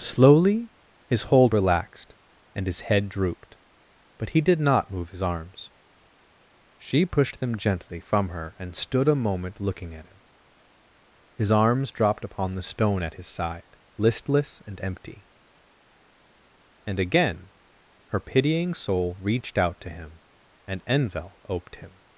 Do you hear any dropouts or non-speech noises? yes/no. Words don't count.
no